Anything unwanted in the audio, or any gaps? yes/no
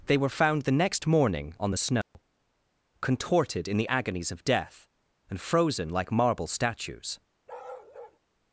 yes